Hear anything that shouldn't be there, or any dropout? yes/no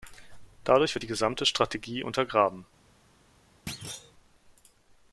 yes